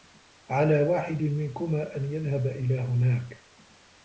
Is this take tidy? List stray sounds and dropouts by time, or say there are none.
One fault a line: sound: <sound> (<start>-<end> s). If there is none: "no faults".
no faults